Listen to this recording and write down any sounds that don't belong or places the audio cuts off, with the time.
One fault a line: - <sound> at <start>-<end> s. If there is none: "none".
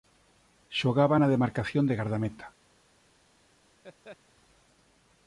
- laugh at 3.8-4.2 s